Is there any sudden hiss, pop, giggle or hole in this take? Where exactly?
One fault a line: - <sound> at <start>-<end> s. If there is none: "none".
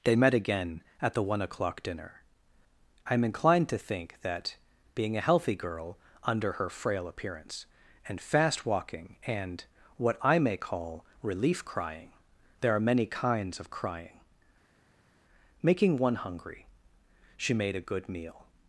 none